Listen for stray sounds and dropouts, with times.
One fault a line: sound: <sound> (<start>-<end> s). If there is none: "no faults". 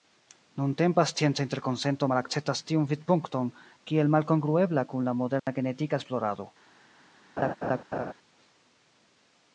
sound: dropout (5.4-5.5 s)
sound: laugh (7.4-8.1 s)